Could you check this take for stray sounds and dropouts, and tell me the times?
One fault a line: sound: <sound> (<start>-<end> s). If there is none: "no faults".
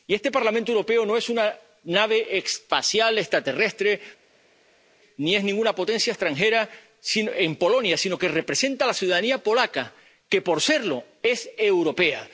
no faults